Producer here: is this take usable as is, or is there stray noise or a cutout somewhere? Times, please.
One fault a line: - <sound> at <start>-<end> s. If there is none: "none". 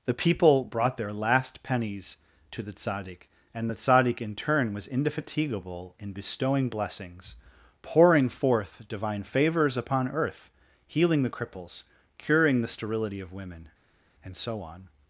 none